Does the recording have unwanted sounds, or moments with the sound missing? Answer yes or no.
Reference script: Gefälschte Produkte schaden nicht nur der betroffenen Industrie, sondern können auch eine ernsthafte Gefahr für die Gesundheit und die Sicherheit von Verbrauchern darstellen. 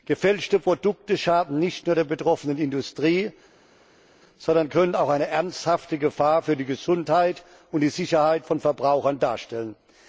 no